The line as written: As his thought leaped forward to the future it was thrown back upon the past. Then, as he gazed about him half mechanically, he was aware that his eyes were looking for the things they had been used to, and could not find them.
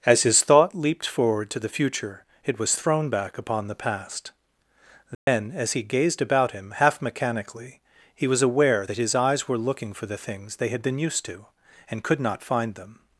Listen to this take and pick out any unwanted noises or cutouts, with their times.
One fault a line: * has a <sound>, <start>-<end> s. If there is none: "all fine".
* has a dropout, 5.1-5.3 s